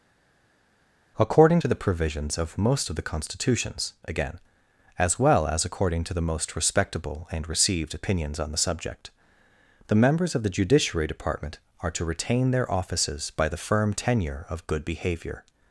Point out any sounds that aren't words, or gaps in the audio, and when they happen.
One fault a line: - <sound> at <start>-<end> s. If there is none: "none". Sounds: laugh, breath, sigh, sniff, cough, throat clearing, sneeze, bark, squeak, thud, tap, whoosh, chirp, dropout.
none